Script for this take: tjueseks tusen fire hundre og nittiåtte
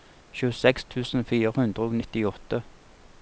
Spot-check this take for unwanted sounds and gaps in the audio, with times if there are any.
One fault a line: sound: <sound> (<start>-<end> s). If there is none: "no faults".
no faults